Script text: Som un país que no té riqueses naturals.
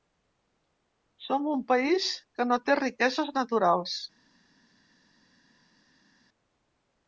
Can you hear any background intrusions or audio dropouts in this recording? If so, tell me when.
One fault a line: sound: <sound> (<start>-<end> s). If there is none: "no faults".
no faults